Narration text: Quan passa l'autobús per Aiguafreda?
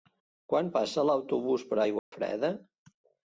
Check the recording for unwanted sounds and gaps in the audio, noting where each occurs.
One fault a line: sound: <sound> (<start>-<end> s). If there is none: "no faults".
sound: dropout (2.0-2.1 s)